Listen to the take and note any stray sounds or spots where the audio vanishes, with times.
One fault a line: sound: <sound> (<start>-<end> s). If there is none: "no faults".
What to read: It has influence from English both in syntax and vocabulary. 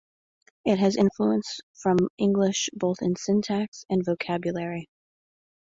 no faults